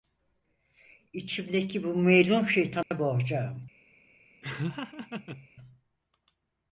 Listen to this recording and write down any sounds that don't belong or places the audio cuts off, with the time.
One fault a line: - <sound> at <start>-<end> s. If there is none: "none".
- dropout at 2.8-2.9 s
- laugh at 4.4-5.5 s